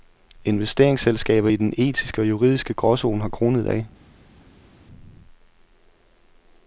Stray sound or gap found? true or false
false